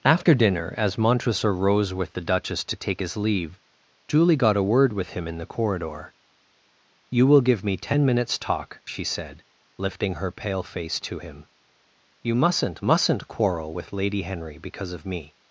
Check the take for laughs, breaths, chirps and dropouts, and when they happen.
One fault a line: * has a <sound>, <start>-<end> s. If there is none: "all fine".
all fine